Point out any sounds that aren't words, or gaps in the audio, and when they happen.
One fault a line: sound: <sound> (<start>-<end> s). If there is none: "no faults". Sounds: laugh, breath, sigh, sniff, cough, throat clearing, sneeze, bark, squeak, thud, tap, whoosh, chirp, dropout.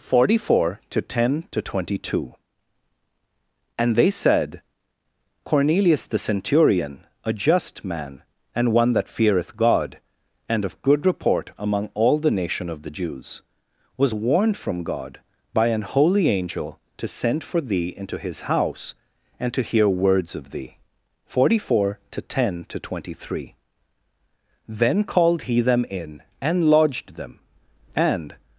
no faults